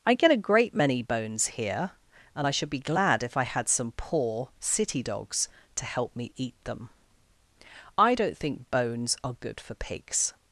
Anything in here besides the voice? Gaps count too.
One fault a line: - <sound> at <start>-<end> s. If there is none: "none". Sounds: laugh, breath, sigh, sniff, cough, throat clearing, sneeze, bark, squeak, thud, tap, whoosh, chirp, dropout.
none